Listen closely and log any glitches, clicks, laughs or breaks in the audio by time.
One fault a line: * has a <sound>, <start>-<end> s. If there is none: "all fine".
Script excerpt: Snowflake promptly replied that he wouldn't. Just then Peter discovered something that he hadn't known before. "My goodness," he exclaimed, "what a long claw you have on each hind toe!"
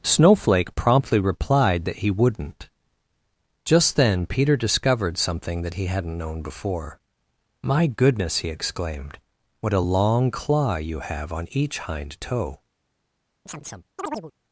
* has a chirp, 13.5-14.3 s